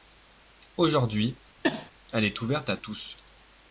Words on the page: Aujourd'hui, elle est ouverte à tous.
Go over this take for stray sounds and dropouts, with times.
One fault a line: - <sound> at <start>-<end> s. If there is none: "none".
- sneeze at 1.6-1.9 s